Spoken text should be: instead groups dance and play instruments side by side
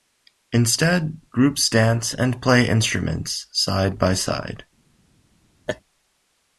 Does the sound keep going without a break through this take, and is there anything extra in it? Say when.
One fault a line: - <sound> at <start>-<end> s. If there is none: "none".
- laugh at 5.7-5.8 s